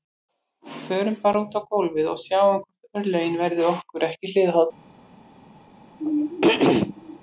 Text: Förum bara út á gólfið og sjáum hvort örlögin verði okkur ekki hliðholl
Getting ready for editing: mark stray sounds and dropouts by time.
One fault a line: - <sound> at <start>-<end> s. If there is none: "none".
- throat clearing at 6.0-7.2 s